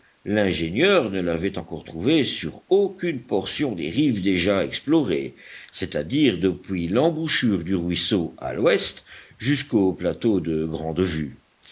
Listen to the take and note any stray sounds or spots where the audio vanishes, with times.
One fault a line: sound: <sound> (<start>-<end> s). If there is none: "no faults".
no faults